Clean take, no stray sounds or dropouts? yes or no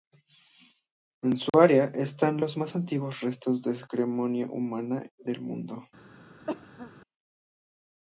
no